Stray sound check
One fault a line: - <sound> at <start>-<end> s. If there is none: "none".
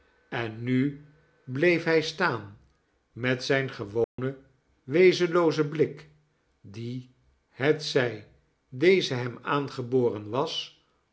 - dropout at 4.0-4.2 s